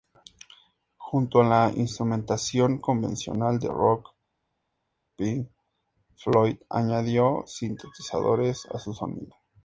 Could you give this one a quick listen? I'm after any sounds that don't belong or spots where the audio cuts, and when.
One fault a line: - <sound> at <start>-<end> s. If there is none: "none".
none